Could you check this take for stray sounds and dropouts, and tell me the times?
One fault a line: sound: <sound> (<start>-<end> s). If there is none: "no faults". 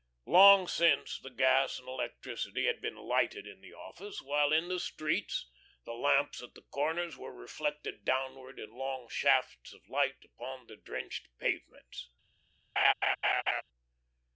sound: laugh (12.8-13.6 s)